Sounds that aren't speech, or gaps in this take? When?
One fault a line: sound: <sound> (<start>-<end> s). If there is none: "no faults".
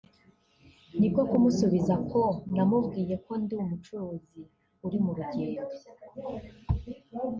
no faults